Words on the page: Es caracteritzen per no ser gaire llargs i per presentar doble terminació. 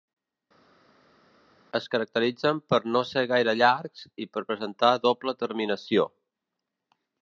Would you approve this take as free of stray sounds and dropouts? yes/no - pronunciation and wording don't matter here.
yes